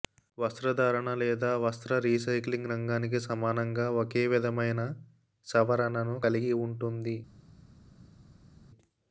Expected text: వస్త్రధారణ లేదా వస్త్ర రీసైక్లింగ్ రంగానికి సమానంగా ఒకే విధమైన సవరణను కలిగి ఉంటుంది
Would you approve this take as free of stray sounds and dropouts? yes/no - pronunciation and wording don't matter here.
yes